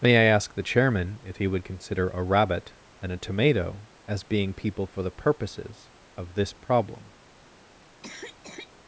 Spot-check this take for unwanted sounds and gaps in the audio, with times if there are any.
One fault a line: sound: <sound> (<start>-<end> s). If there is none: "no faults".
sound: cough (8.0-8.7 s)